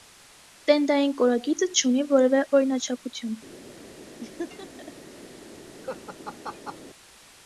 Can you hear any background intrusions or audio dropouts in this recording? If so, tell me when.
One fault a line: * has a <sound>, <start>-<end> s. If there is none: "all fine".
* has a laugh, 4.2-4.9 s
* has a laugh, 5.8-6.8 s